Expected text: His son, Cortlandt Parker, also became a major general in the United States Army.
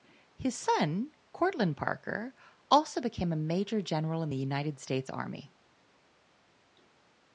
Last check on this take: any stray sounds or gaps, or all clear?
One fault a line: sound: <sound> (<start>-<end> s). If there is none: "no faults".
no faults